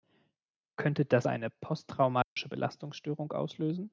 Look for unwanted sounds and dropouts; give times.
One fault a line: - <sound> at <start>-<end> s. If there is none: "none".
- dropout at 2.2-2.4 s